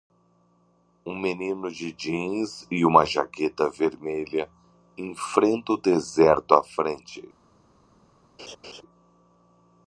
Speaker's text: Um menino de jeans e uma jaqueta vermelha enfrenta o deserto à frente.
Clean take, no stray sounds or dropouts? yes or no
no